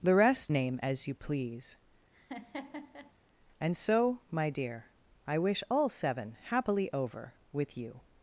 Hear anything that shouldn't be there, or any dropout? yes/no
yes